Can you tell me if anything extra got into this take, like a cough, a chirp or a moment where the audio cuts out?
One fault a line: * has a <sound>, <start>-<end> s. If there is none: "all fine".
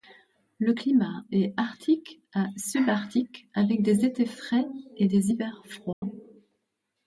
* has a dropout, 5.9-6.0 s